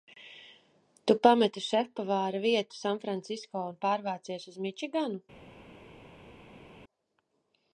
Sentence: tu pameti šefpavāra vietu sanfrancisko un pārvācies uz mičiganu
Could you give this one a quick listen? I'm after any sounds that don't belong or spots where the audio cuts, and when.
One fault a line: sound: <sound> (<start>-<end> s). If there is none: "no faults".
no faults